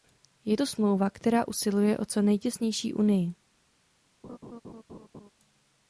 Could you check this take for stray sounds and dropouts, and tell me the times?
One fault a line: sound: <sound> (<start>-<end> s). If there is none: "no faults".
sound: laugh (4.2-5.3 s)